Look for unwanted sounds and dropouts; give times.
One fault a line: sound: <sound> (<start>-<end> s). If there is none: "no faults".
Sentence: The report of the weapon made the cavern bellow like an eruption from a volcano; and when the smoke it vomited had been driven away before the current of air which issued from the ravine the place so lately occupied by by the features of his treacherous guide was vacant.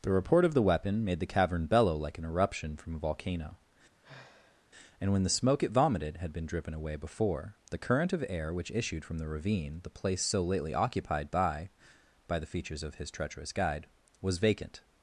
sound: sigh (4.0-4.7 s)